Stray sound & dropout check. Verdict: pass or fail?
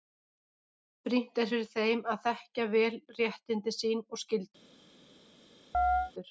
fail